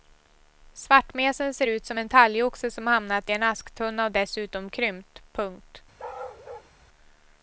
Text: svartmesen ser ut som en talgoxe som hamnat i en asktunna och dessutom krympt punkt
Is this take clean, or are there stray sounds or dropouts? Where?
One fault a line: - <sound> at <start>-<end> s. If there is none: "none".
- bark at 6.0-6.7 s